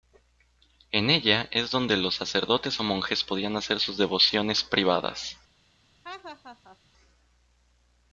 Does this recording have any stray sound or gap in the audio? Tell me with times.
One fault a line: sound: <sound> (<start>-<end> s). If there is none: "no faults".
sound: laugh (6.0-6.8 s)